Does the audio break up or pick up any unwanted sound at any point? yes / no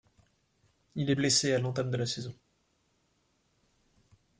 no